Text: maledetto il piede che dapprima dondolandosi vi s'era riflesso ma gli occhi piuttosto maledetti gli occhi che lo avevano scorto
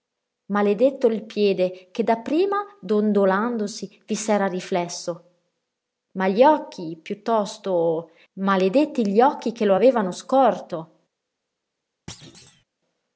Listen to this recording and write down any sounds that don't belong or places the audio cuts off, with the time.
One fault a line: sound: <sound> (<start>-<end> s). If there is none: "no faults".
sound: thud (12.1-12.6 s)